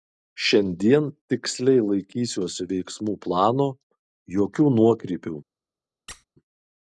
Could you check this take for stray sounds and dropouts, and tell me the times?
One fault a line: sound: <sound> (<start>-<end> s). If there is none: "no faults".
sound: squeak (6.1-6.2 s)